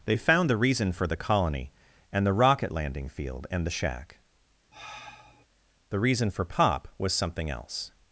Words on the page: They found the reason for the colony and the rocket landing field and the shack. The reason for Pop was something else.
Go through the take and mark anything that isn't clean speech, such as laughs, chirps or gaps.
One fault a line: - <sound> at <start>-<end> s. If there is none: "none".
- sigh at 4.7-5.5 s